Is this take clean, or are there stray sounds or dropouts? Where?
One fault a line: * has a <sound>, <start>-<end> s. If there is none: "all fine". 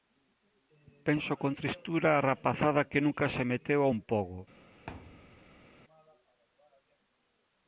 * has a thud, 4.9-5.7 s